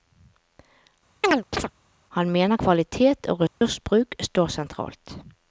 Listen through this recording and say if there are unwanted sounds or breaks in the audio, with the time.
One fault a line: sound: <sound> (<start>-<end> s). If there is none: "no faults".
sound: chirp (1.2-1.7 s)
sound: dropout (3.5-3.6 s)